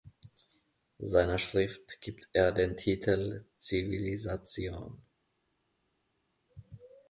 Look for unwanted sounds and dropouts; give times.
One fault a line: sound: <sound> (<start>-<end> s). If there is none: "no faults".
no faults